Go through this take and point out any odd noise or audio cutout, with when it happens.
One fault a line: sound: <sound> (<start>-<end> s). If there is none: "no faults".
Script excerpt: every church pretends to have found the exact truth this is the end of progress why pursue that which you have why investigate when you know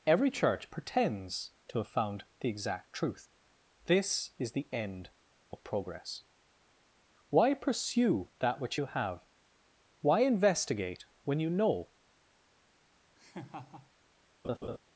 sound: laugh (13.2-13.9 s)
sound: laugh (14.4-14.8 s)